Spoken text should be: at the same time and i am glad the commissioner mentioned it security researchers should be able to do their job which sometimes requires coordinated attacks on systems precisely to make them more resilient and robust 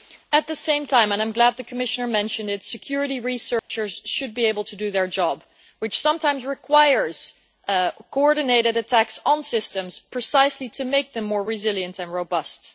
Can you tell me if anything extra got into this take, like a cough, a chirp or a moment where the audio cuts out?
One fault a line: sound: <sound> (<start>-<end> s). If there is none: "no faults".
sound: dropout (3.6-3.7 s)